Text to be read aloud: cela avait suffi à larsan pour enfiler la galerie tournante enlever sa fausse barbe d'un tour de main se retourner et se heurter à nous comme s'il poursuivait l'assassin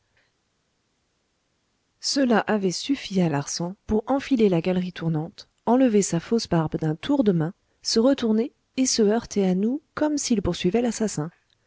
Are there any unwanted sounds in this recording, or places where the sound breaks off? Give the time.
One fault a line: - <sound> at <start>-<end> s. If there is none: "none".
none